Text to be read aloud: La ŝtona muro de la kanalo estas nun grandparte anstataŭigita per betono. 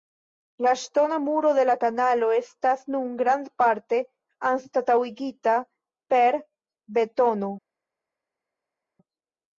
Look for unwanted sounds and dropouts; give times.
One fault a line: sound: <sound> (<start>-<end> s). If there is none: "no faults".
no faults